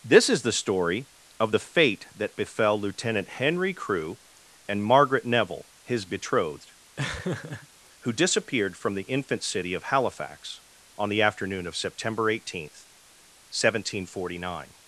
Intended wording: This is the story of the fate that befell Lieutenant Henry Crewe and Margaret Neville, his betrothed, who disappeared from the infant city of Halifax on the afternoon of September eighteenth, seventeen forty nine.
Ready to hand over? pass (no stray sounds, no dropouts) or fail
fail